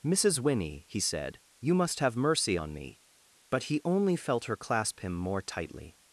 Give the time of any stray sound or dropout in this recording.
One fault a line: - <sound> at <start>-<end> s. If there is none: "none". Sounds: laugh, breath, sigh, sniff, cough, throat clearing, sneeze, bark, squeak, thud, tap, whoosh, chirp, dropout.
none